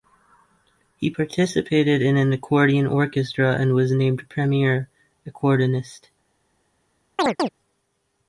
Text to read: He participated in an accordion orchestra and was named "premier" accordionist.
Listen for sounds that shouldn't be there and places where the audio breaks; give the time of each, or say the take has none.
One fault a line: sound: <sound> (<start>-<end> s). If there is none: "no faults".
sound: chirp (7.2-7.5 s)